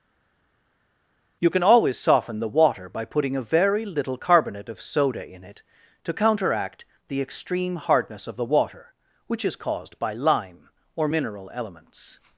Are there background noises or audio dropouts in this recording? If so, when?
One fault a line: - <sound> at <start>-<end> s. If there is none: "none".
none